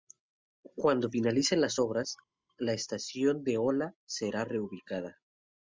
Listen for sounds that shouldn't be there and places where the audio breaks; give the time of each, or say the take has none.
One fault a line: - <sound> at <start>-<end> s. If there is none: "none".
none